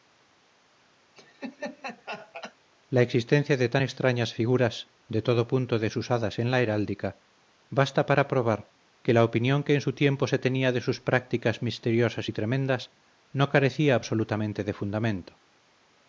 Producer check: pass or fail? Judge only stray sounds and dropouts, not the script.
fail